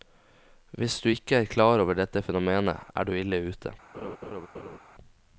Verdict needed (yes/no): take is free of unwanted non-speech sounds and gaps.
no